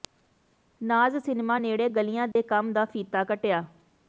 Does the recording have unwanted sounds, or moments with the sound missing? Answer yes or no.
yes